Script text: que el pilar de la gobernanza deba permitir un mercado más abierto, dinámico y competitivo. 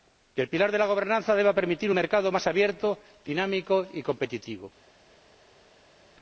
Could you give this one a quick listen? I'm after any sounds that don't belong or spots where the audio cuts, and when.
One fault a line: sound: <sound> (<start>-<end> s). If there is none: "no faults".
no faults